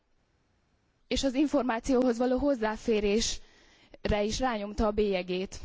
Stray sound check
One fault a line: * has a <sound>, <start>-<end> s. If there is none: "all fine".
all fine